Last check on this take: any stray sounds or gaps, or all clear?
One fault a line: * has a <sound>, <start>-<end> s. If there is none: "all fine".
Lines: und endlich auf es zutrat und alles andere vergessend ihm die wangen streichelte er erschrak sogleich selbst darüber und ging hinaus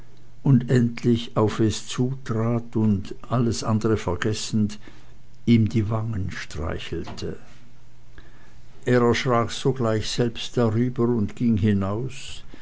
all fine